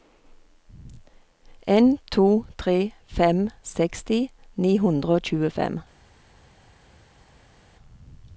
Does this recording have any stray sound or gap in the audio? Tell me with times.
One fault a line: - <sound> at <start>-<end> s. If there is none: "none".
none